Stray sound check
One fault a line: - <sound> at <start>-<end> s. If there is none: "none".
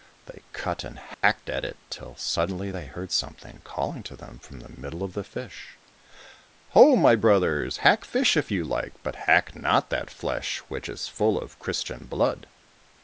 - dropout at 1.1-1.2 s